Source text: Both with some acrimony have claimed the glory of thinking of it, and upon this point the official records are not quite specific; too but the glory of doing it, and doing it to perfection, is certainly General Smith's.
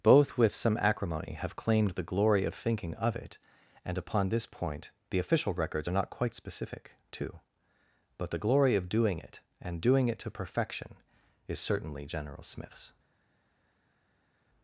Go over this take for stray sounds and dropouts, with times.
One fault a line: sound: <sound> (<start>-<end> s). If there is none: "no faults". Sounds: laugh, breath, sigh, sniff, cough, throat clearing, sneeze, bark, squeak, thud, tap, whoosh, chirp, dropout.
no faults